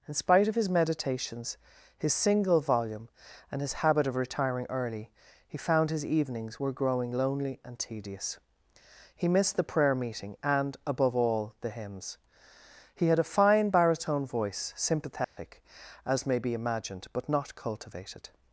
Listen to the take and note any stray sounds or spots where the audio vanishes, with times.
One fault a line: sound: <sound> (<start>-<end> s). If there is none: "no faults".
sound: dropout (15.2-15.4 s)